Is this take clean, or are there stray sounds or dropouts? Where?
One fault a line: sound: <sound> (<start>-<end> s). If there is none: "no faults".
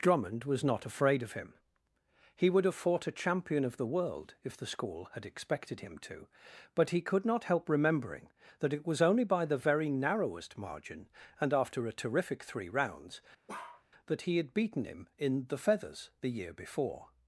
sound: bark (13.5-13.8 s)